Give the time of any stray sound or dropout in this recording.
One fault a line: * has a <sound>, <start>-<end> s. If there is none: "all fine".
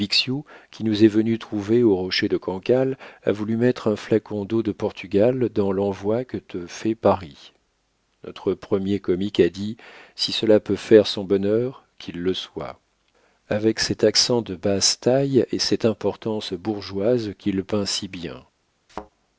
* has a thud, 18.9-19.1 s